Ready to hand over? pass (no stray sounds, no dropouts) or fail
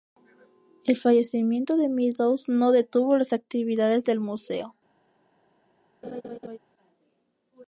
fail